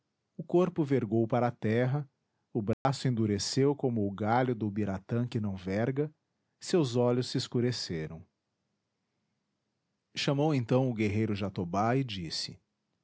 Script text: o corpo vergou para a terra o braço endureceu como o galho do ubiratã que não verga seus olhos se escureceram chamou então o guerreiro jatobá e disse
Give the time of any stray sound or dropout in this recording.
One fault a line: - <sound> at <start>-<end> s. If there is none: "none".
- dropout at 2.7-2.9 s